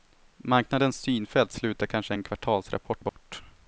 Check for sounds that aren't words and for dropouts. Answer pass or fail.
fail